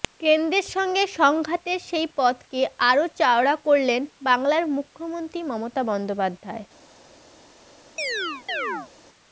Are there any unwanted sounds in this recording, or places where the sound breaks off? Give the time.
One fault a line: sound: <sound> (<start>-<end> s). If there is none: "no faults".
sound: chirp (8.0-8.9 s)